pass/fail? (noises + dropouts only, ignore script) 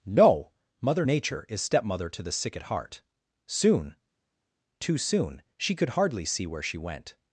pass